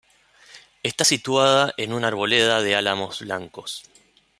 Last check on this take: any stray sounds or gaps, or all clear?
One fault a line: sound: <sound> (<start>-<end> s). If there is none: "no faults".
no faults